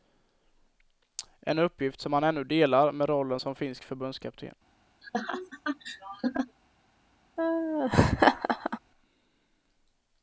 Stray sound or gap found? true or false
true